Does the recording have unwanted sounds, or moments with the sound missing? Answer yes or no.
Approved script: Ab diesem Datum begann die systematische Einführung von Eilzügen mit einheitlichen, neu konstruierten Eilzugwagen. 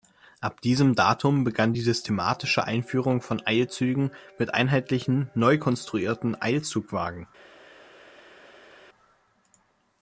no